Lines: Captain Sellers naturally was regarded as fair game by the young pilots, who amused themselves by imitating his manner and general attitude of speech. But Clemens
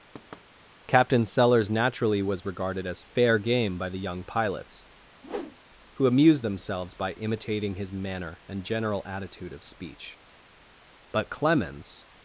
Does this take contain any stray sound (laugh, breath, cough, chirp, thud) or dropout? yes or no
yes